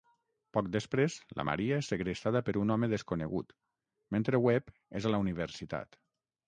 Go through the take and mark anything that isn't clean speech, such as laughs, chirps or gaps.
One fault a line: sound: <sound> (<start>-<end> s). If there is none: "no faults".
no faults